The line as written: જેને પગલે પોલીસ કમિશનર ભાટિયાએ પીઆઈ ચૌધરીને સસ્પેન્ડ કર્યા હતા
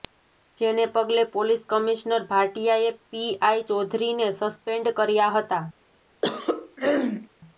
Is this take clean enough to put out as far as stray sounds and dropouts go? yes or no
no